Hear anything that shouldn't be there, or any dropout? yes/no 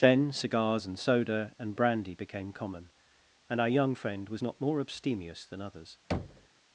yes